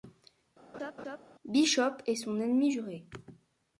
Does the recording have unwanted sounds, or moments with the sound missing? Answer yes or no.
yes